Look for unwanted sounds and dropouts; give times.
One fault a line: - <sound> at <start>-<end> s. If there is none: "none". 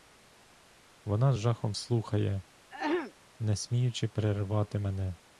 - throat clearing at 2.7-3.1 s